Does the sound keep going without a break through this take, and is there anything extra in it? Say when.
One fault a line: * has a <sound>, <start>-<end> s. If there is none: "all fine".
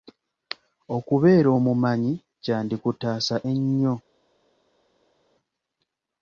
all fine